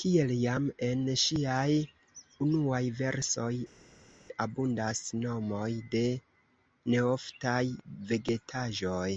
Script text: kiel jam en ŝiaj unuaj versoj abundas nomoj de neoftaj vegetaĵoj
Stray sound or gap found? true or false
false